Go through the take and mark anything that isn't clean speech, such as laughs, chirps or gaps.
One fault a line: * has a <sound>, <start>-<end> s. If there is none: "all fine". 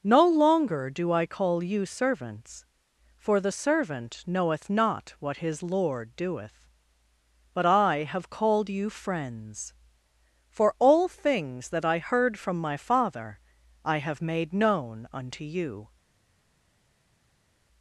all fine